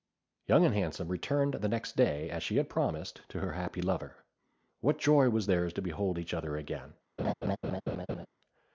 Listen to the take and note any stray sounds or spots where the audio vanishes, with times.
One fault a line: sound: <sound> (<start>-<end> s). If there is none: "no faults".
sound: laugh (7.2-8.3 s)